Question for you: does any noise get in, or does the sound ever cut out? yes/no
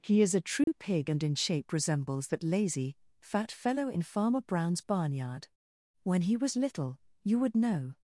yes